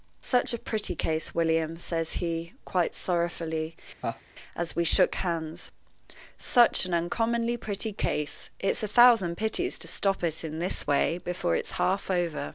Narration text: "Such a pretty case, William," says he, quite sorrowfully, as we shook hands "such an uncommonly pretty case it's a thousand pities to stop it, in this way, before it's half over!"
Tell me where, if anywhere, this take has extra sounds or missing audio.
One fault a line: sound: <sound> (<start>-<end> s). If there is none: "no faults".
sound: laugh (4.0-4.2 s)